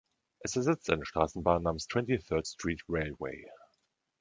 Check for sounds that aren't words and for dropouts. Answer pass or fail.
pass